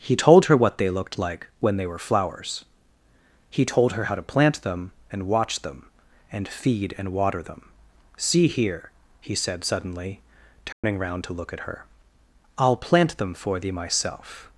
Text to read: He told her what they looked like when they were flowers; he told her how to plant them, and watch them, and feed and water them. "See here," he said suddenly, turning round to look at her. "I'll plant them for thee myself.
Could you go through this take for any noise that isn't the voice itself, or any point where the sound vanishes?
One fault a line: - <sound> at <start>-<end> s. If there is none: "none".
- dropout at 10.7-10.8 s